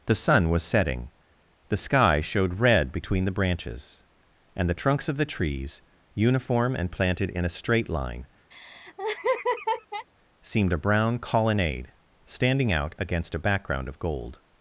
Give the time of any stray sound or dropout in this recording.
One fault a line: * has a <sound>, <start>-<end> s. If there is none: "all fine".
* has a laugh, 8.5-10.1 s